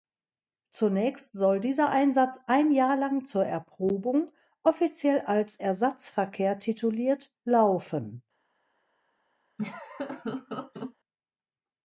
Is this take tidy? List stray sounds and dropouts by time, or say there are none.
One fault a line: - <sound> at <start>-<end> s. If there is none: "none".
- laugh at 9.6-10.9 s